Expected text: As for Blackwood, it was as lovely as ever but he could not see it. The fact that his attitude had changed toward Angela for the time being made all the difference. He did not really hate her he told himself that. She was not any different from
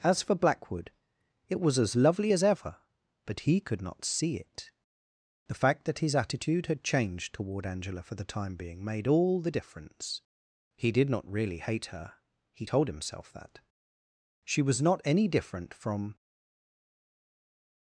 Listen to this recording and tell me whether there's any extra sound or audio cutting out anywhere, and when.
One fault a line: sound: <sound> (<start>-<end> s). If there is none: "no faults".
no faults